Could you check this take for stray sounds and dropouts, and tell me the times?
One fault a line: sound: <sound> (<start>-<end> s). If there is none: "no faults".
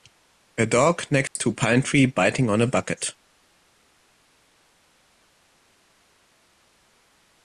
sound: dropout (1.3-1.4 s)